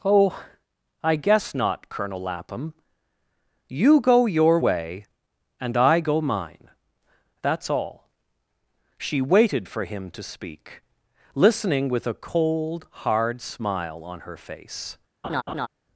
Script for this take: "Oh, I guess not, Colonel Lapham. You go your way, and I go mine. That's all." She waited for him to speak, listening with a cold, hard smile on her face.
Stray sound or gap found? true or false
true